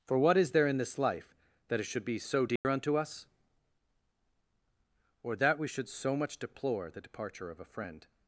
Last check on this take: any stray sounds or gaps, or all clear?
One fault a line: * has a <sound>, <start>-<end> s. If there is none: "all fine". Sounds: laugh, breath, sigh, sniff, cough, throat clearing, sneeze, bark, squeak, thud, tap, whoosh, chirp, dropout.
* has a dropout, 2.6-2.6 s